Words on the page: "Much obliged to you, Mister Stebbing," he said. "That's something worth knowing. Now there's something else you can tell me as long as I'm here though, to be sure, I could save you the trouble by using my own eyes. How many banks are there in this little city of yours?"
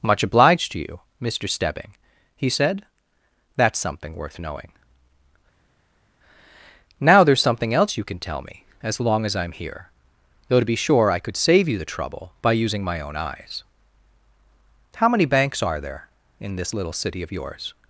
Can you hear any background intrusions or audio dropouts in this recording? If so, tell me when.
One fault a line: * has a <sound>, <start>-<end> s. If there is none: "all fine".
all fine